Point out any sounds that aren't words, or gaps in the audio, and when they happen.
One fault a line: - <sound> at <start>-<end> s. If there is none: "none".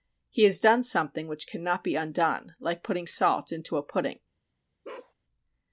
- bark at 4.8-5.1 s